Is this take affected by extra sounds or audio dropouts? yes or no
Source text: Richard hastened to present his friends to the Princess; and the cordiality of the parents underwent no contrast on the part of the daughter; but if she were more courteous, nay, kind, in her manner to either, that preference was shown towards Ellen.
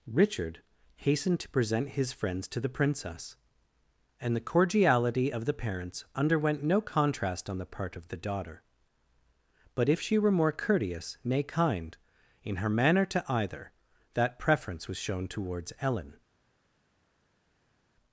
no